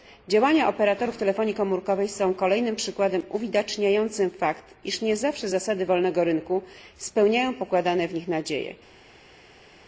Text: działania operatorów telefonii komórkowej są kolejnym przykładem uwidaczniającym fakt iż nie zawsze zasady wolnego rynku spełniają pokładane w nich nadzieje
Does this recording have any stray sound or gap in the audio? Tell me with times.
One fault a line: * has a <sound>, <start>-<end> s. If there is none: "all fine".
all fine